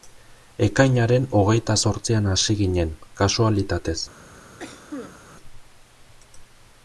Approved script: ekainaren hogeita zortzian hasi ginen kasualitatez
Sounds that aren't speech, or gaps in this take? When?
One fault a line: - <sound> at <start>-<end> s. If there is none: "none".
- cough at 4.6-5.2 s